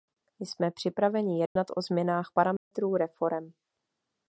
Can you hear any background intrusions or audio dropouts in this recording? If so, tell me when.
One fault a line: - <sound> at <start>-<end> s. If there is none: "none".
- dropout at 1.5-1.6 s
- dropout at 2.6-2.7 s